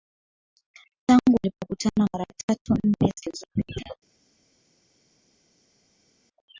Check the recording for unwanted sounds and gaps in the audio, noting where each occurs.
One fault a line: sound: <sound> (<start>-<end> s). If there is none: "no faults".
no faults